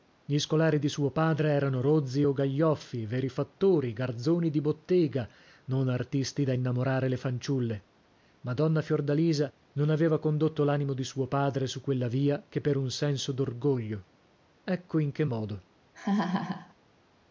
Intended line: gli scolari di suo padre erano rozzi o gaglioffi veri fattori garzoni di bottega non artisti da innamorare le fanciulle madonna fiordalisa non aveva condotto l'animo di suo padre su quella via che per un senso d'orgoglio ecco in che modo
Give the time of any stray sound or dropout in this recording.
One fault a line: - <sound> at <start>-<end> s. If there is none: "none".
- laugh at 15.9-16.7 s